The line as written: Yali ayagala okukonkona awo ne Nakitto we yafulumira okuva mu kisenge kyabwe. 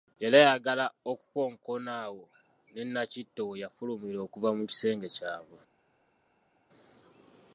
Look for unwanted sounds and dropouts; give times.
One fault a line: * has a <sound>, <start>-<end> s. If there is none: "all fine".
all fine